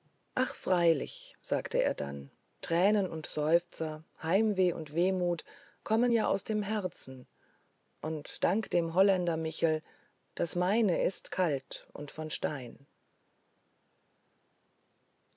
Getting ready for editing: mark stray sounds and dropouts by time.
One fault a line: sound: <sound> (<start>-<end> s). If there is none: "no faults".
no faults